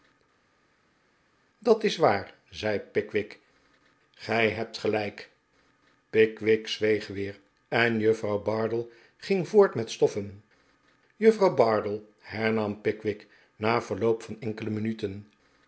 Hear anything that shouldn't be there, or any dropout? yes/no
no